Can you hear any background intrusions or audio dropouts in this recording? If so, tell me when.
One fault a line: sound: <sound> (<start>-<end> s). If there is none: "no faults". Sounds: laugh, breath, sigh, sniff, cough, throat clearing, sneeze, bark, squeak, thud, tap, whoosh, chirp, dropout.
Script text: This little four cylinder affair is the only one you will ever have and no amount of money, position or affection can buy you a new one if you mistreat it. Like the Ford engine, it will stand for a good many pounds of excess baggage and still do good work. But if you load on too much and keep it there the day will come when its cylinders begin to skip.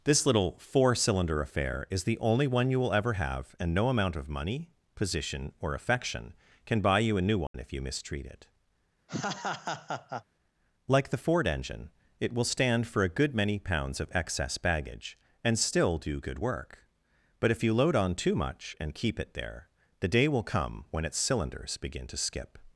sound: dropout (7.5-7.5 s)
sound: laugh (9.1-10.2 s)